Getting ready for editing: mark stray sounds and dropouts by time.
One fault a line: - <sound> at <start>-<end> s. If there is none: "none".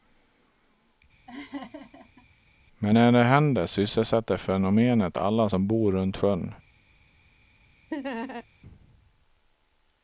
- laugh at 1.3-2.3 s
- laugh at 7.9-8.5 s